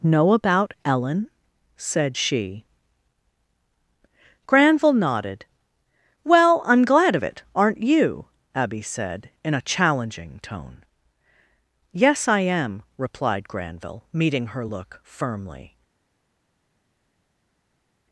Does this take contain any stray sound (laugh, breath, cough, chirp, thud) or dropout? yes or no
no